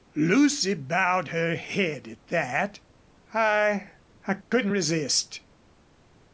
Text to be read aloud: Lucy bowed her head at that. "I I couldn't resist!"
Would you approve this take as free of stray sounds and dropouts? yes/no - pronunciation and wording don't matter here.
no